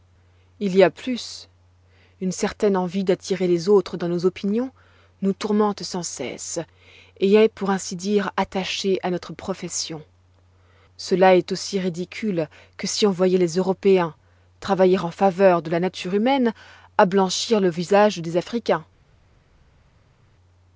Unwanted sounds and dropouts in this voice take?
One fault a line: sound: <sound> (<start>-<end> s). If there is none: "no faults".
no faults